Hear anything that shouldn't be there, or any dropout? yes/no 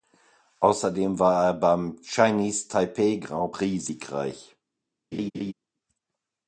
yes